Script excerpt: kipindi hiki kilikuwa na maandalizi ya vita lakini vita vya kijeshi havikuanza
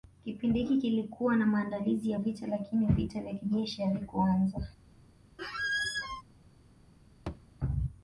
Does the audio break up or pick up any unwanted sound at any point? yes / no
yes